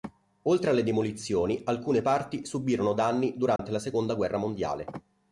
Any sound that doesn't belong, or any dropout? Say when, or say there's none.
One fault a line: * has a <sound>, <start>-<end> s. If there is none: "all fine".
* has a dropout, 3.6-3.6 s